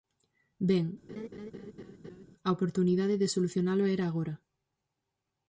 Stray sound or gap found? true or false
true